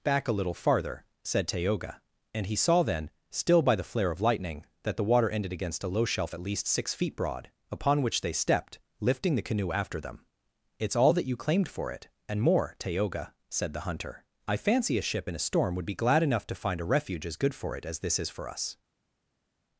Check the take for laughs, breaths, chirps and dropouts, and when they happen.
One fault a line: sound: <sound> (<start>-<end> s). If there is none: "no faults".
no faults